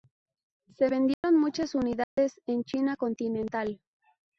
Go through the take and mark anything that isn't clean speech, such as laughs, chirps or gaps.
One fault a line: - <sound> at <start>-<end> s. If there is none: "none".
- dropout at 1.1-1.2 s
- dropout at 2.0-2.2 s